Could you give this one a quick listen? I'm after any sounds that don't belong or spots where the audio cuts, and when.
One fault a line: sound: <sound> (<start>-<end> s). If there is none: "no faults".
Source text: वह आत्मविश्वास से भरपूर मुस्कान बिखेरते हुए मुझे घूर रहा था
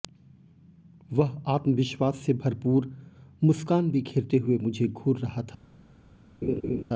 sound: laugh (6.4-6.8 s)